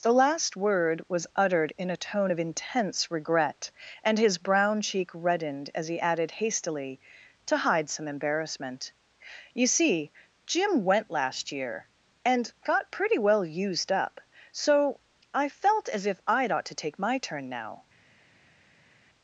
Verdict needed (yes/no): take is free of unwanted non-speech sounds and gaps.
yes